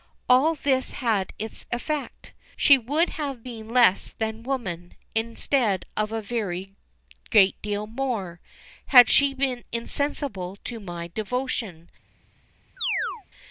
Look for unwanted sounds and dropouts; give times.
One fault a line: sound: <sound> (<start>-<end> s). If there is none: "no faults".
sound: chirp (12.8-13.3 s)